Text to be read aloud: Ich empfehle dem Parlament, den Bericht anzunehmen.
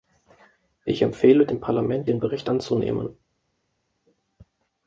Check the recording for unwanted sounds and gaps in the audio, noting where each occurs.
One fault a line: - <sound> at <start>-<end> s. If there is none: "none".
none